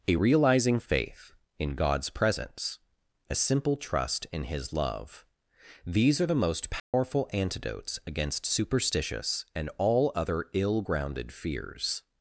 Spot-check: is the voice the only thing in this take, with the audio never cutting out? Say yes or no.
no